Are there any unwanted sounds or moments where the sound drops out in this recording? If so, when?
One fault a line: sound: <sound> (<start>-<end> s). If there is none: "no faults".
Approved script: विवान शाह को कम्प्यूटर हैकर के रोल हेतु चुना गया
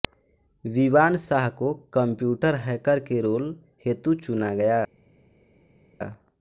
no faults